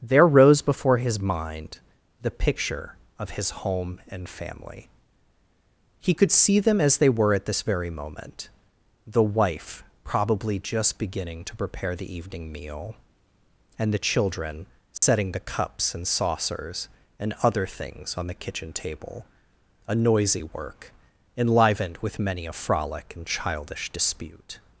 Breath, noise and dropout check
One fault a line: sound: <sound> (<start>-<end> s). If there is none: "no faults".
sound: dropout (15.0-15.0 s)